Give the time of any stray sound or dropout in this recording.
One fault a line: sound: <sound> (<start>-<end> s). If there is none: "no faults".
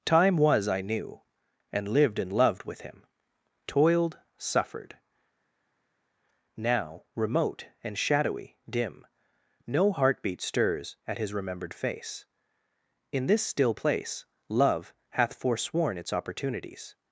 no faults